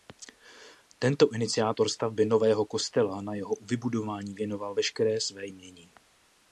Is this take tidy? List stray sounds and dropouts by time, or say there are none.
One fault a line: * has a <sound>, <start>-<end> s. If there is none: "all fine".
all fine